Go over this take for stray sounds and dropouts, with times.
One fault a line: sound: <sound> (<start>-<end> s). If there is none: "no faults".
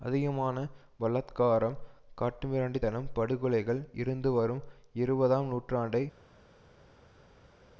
no faults